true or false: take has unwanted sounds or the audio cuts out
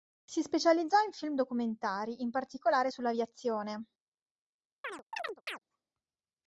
true